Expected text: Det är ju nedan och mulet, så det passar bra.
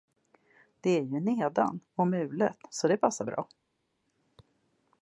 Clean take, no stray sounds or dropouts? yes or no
yes